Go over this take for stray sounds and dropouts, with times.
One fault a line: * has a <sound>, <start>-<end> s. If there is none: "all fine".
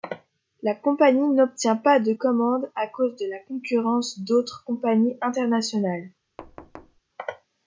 * has a thud, 6.4-7.0 s